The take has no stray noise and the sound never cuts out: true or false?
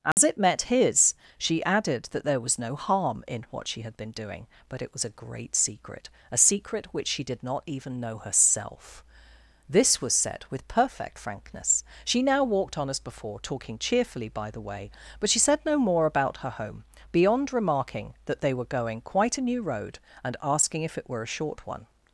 false